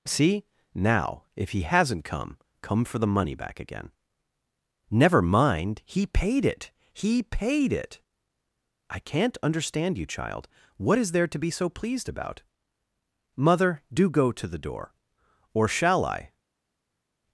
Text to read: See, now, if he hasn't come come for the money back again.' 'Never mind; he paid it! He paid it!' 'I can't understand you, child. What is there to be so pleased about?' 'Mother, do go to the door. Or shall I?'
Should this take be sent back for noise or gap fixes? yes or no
no